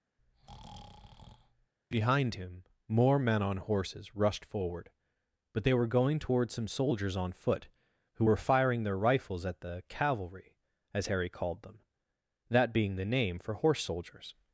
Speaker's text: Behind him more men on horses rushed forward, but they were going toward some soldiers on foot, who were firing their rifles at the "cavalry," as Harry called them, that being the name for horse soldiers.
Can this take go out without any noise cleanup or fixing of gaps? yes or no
no